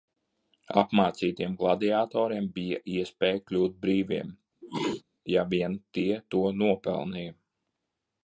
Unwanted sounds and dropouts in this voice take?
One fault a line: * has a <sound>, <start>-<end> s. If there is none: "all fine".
* has a sneeze, 4.6-5.0 s